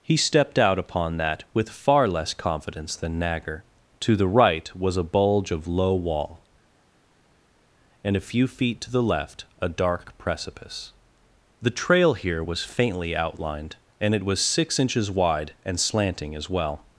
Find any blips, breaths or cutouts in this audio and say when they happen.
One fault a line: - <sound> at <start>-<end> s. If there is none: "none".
none